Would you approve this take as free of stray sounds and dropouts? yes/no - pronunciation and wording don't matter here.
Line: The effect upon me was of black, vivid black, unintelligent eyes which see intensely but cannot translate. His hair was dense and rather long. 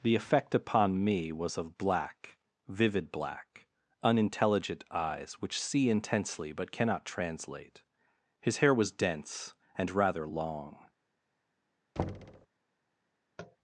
no